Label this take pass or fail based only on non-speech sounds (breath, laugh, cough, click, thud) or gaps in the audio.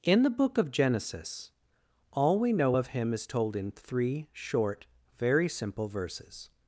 pass